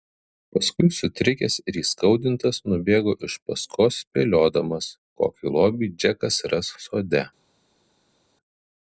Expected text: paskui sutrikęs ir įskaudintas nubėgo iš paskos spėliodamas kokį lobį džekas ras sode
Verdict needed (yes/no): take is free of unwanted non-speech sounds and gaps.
yes